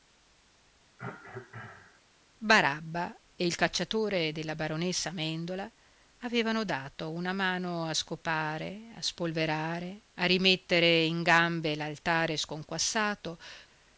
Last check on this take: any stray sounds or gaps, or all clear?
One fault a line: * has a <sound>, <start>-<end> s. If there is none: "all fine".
* has a cough, 1.0-2.0 s